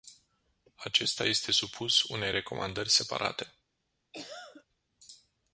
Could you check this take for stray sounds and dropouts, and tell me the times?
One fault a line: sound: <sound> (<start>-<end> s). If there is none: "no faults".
sound: cough (4.1-4.7 s)